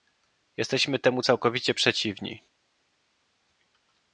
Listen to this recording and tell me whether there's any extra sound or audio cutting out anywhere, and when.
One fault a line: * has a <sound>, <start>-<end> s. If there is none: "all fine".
all fine